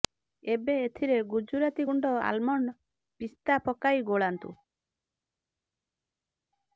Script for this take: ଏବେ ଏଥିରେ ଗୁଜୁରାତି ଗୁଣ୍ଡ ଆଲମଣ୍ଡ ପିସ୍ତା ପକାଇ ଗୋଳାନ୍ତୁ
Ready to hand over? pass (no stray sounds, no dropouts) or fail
pass